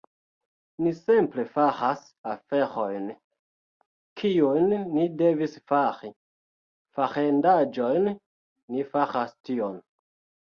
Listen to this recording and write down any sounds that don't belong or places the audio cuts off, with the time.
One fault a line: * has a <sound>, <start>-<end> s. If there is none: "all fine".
all fine